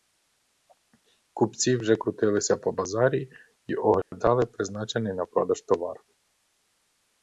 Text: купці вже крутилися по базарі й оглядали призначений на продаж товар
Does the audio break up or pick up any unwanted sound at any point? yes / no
yes